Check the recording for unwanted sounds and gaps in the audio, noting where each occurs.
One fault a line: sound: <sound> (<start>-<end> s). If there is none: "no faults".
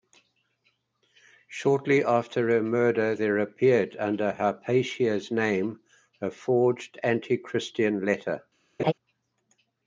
sound: laugh (8.8-8.9 s)